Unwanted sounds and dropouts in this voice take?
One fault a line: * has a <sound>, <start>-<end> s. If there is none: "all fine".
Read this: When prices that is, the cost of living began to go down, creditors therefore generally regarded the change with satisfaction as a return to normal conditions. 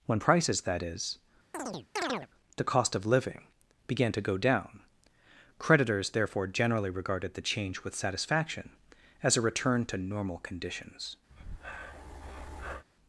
* has a chirp, 1.5-2.3 s
* has a breath, 11.3-12.8 s